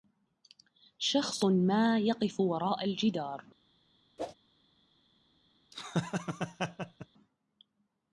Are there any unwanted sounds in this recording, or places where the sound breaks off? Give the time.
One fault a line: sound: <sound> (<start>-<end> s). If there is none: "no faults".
sound: whoosh (4.2-4.3 s)
sound: laugh (5.7-7.1 s)